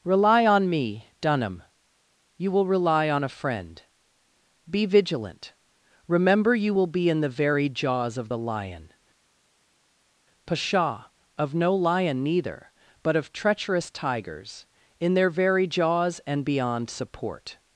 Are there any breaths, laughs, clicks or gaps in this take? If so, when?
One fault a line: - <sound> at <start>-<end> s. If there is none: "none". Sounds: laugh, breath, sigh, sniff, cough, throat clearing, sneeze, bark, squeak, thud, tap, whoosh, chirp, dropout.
none